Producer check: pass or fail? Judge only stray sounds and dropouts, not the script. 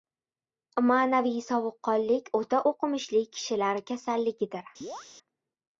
fail